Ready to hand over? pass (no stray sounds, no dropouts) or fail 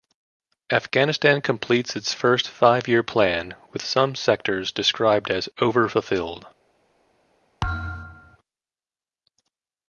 fail